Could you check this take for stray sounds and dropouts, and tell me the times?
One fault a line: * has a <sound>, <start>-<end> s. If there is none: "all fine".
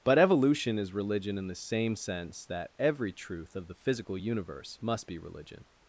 all fine